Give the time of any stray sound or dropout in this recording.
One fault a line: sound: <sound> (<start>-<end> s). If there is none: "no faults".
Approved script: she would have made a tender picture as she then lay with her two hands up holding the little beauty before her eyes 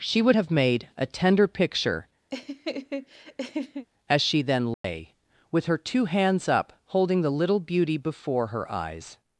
sound: laugh (2.3-3.9 s)
sound: dropout (4.7-4.8 s)